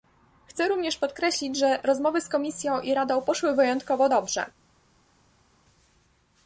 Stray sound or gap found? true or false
false